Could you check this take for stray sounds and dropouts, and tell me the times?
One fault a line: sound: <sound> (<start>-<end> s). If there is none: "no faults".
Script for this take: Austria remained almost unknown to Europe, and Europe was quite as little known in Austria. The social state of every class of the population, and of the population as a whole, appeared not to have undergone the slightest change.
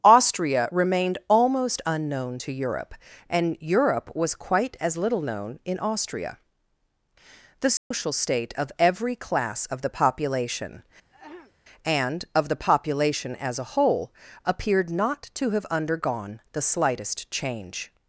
sound: dropout (7.8-7.9 s)
sound: throat clearing (11.1-11.5 s)